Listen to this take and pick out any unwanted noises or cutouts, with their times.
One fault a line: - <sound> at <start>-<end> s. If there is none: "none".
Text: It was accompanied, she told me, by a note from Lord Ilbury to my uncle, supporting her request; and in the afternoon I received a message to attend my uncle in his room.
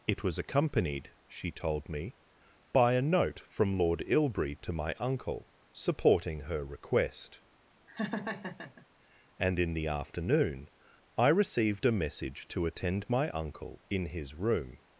- laugh at 7.9-8.9 s